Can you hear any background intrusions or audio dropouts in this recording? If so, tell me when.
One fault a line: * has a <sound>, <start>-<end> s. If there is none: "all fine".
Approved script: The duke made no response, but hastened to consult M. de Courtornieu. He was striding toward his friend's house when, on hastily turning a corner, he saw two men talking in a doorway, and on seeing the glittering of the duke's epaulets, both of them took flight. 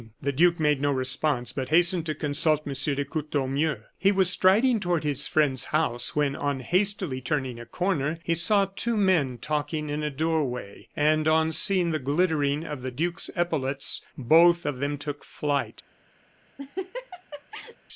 * has a laugh, 16.6-17.8 s